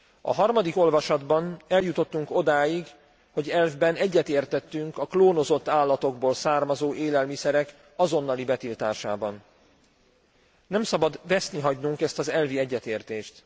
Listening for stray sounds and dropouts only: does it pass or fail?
pass